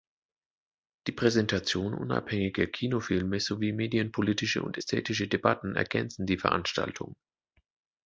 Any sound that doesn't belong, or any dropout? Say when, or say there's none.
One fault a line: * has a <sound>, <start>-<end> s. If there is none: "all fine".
all fine